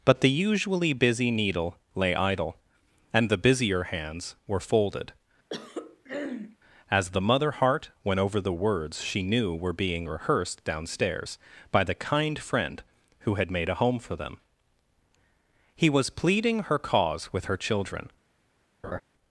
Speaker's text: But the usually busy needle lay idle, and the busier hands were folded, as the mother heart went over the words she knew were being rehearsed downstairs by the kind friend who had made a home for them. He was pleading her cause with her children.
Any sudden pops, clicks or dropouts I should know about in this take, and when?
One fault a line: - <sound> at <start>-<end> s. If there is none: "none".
- throat clearing at 5.5-6.6 s
- laugh at 18.8-19.0 s